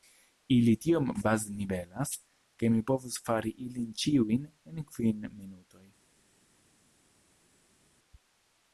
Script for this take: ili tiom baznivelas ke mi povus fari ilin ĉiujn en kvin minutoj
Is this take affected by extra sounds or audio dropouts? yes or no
no